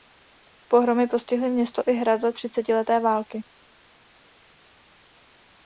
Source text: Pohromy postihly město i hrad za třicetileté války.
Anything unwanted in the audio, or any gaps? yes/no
no